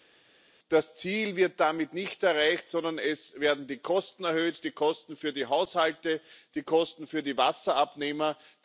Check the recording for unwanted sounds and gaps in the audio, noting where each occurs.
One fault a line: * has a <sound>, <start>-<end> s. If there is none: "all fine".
all fine